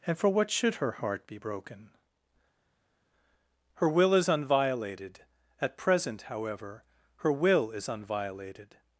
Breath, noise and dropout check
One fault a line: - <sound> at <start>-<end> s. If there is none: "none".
none